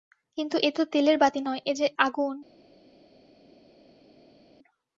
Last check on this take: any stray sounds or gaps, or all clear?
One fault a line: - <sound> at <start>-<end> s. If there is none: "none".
none